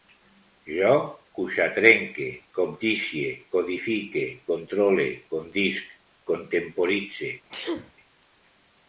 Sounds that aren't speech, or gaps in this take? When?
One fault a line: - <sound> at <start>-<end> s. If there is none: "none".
- sneeze at 7.5-7.9 s